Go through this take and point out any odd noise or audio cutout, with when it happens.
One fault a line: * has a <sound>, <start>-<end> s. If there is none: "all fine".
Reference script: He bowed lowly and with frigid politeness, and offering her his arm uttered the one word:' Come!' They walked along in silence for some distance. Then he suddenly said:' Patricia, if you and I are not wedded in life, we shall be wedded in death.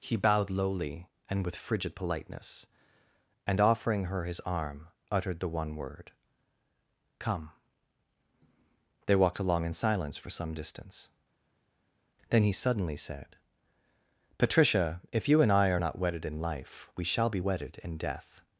all fine